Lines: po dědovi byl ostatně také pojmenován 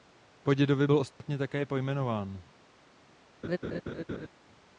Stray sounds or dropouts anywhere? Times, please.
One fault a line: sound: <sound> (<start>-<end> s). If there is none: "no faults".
sound: dropout (1.1-1.2 s)
sound: laugh (3.4-4.3 s)